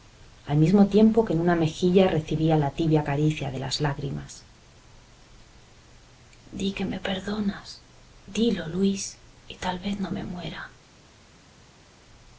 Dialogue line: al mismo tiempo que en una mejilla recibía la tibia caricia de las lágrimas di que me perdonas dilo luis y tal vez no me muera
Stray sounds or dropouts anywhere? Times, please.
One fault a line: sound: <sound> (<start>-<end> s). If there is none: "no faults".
no faults